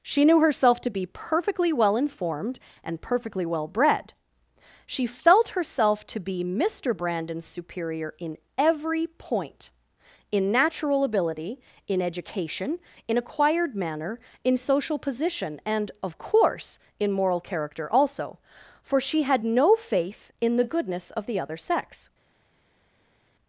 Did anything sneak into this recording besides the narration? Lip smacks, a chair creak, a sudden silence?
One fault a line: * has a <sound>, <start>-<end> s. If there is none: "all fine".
all fine